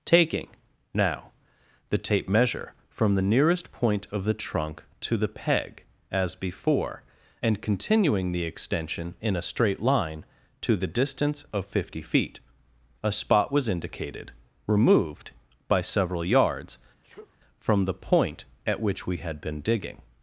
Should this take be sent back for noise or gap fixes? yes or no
yes